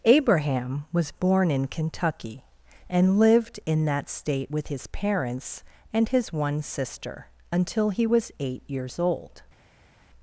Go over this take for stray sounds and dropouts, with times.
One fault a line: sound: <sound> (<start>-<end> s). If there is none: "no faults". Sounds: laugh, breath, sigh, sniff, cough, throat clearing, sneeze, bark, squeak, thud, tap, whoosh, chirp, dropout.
no faults